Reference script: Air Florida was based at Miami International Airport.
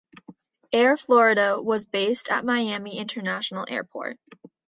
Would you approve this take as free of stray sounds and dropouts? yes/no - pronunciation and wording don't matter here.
yes